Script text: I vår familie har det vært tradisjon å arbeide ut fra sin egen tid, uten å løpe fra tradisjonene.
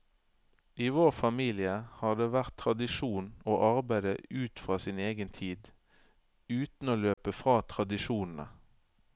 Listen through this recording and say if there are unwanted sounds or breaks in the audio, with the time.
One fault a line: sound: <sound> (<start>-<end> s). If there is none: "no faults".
sound: dropout (7.1-7.2 s)